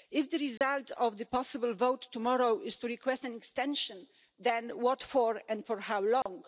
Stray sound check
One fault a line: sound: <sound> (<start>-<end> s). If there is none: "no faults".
sound: dropout (0.6-0.6 s)
sound: dropout (6.2-6.3 s)